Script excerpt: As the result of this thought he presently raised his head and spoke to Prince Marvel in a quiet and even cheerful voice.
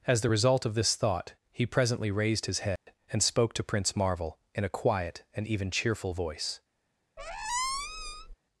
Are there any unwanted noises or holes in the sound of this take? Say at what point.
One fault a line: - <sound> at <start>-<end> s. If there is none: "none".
- dropout at 2.8-2.9 s
- squeak at 7.2-8.3 s